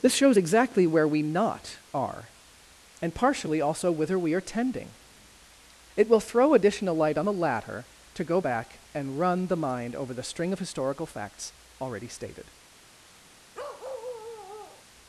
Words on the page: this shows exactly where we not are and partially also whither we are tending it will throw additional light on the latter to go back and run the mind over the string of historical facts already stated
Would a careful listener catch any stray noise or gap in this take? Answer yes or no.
yes